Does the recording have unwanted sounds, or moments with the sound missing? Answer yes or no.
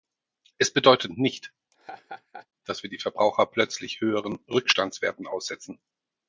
yes